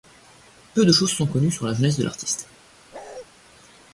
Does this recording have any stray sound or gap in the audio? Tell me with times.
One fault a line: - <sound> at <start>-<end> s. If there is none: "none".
- bark at 2.9-3.3 s